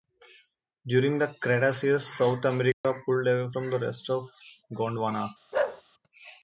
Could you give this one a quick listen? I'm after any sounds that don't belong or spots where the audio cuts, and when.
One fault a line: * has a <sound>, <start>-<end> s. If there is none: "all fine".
* has a dropout, 2.7-2.8 s
* has a bark, 5.5-5.8 s